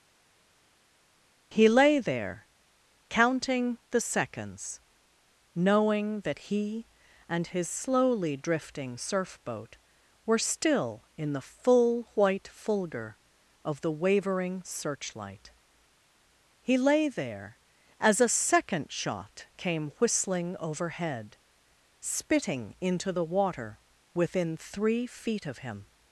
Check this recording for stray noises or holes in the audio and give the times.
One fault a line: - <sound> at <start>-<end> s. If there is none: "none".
none